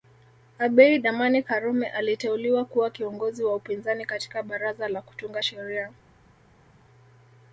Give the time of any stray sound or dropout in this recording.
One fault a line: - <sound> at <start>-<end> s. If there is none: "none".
none